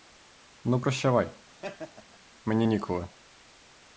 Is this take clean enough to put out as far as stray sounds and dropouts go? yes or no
no